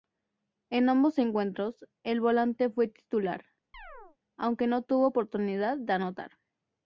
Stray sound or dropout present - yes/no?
yes